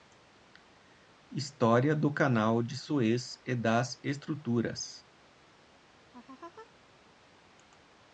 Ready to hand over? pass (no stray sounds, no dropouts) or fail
fail